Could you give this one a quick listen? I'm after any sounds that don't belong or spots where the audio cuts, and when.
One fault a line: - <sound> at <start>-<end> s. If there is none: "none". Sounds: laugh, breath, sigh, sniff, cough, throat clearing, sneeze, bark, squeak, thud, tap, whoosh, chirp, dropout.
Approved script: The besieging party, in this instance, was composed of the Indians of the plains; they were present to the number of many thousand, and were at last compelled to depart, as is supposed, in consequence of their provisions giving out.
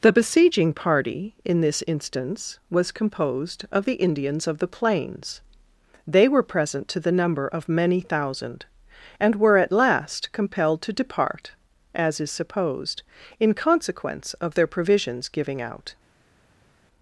none